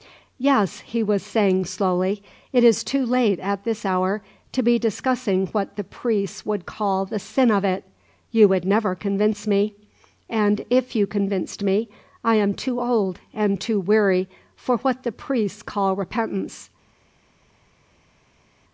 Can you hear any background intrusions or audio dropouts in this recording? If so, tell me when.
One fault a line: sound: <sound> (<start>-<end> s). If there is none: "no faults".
no faults